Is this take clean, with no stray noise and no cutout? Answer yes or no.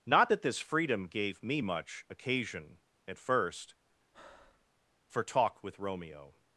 no